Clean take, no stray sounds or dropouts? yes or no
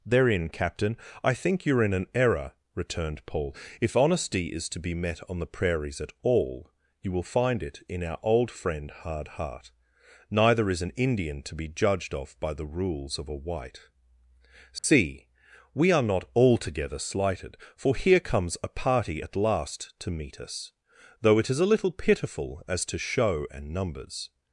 no